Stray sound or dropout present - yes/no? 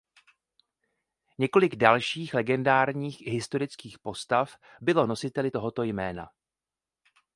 no